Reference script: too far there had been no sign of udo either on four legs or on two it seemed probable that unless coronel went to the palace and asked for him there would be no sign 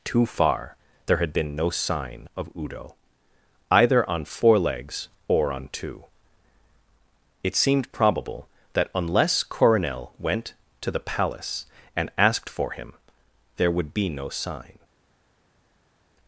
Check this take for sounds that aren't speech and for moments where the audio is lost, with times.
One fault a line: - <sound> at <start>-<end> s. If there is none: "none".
none